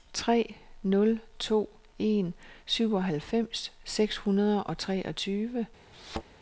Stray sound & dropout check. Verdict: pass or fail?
fail